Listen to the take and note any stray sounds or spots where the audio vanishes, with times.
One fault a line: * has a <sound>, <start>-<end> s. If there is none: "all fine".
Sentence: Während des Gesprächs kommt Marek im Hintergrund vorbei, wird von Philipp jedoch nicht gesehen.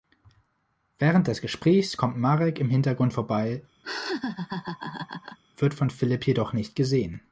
* has a laugh, 3.8-5.4 s